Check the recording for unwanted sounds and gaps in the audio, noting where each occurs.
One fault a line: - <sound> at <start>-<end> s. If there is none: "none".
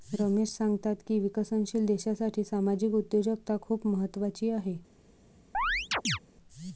- chirp at 5.5-6.2 s